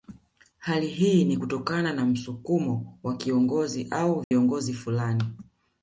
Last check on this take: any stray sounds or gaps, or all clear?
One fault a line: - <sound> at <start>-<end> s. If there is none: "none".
- dropout at 4.2-4.3 s